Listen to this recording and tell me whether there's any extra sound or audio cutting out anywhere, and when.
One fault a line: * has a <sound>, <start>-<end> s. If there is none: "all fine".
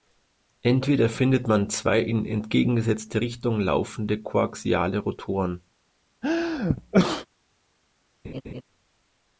* has a sneeze, 6.2-7.3 s
* has a laugh, 8.2-8.6 s